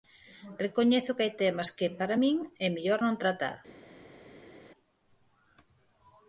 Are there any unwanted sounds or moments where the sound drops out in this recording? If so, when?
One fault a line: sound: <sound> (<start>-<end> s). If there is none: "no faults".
no faults